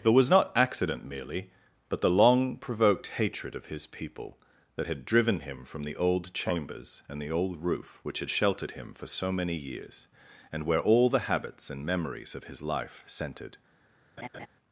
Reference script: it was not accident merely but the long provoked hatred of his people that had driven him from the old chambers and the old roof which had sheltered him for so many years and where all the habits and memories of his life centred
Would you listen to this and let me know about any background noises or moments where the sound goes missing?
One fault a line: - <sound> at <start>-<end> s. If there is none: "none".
- laugh at 14.2-14.5 s